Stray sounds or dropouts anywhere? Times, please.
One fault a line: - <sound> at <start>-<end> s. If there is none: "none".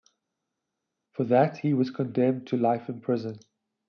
none